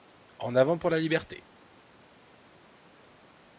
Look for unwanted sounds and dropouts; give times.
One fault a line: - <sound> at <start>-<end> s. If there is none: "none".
none